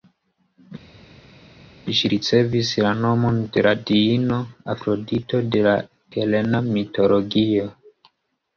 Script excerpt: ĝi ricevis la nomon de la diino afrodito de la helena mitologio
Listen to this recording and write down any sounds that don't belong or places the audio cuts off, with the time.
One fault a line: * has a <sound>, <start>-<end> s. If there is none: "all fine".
all fine